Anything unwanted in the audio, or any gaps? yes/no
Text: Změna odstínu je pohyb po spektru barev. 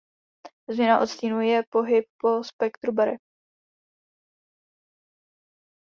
no